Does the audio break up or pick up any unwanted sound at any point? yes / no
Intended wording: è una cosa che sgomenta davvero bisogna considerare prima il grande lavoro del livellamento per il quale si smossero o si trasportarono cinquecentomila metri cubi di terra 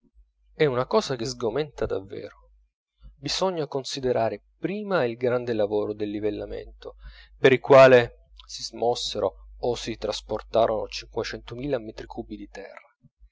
no